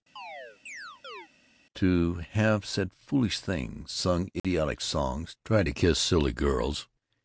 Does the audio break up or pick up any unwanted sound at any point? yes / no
yes